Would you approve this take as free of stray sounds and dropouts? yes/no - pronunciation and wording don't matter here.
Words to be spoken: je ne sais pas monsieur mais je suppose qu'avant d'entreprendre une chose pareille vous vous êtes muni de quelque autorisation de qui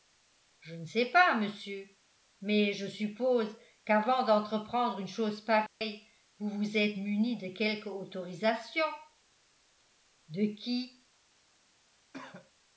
no